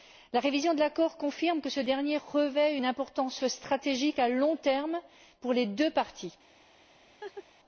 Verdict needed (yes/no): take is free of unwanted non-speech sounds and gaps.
no